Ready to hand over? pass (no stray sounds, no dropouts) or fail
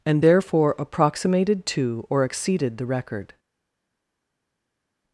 pass